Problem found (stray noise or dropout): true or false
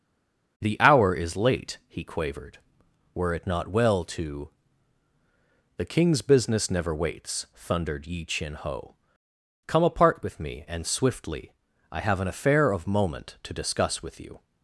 false